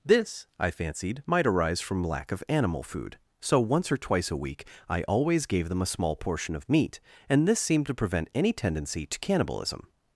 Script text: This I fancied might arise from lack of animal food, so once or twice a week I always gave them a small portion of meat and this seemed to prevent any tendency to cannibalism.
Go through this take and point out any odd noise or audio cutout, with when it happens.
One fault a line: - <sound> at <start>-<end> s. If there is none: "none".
none